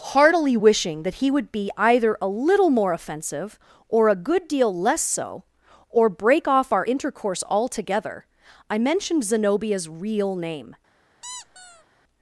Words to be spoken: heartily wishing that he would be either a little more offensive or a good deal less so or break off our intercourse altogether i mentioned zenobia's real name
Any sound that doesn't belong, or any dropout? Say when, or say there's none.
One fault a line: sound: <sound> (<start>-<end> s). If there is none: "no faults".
sound: squeak (11.2-11.8 s)